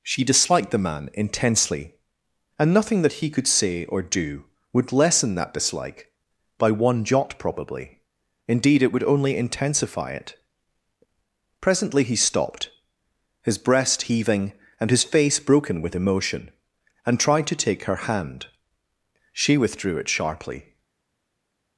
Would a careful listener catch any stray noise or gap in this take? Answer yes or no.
no